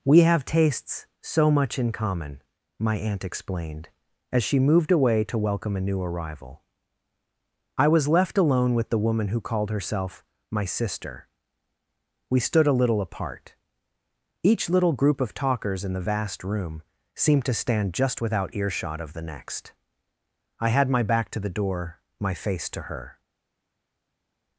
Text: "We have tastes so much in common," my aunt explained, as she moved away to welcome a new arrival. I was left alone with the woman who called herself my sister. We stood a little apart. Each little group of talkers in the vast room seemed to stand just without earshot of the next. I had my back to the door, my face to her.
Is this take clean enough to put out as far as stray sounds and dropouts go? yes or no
yes